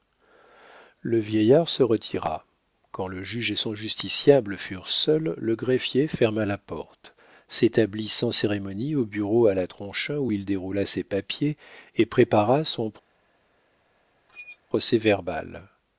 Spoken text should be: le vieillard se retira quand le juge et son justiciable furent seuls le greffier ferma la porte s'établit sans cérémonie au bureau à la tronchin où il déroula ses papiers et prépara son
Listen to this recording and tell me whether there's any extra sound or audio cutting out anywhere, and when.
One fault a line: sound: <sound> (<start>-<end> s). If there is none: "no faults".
sound: squeak (14.3-14.6 s)